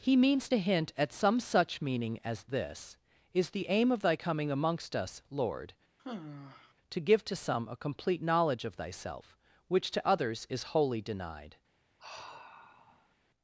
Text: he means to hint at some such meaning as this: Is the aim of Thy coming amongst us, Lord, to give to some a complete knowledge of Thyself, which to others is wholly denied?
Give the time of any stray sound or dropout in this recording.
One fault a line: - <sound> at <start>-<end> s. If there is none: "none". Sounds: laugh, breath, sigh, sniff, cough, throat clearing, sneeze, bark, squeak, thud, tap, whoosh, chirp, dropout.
- sigh at 6.0-6.7 s
- sigh at 12.0-13.1 s